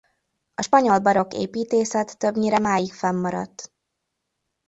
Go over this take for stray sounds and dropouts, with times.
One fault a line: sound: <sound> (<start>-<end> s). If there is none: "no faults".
no faults